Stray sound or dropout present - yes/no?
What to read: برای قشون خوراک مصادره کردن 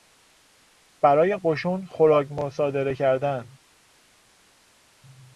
no